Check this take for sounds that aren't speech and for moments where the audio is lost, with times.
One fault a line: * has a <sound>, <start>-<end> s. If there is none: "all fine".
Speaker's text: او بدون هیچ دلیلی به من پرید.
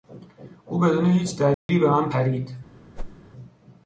* has a dropout, 1.5-1.7 s
* has a whoosh, 3.0-3.2 s